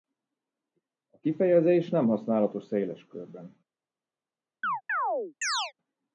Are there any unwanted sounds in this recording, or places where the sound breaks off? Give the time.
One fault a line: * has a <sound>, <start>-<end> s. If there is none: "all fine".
* has a chirp, 4.6-5.7 s